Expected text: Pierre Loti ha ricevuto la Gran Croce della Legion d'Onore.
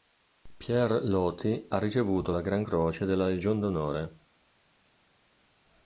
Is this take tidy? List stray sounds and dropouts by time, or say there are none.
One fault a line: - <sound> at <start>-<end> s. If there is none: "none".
none